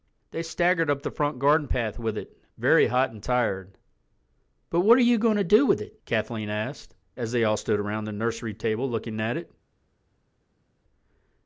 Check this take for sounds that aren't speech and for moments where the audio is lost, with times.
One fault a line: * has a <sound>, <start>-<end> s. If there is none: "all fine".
all fine